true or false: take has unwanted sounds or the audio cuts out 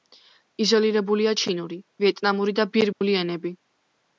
true